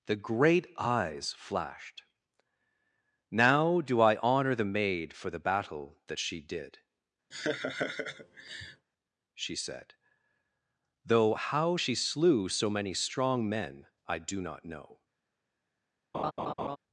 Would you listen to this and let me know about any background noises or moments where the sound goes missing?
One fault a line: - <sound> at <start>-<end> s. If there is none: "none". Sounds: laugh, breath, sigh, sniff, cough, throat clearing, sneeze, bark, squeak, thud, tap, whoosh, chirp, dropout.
- laugh at 7.3-8.9 s
- laugh at 16.1-16.8 s